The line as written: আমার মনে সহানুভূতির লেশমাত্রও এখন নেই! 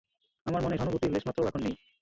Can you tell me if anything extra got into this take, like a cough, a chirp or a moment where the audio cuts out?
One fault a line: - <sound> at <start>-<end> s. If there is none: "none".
none